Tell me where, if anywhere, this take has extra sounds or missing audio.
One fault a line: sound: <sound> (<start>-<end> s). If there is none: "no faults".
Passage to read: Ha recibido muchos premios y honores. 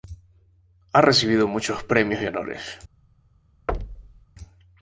sound: thud (3.7-4.3 s)